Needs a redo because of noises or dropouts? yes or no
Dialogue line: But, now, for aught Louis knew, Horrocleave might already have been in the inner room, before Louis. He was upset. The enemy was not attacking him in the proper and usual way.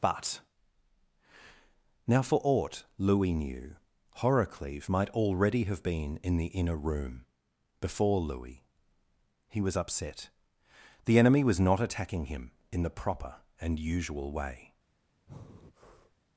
yes